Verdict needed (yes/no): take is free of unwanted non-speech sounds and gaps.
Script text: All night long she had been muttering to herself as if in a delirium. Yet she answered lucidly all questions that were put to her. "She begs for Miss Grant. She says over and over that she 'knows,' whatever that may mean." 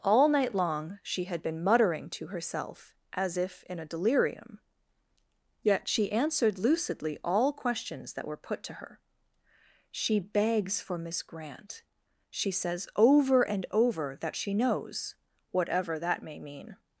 yes